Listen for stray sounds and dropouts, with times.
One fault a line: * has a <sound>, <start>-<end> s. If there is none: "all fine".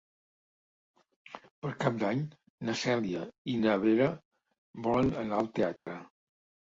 * has a dropout, 5.8-5.9 s